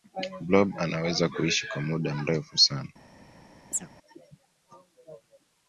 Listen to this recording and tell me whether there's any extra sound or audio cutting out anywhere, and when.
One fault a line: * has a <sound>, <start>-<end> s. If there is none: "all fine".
* has a chirp, 3.7-3.9 s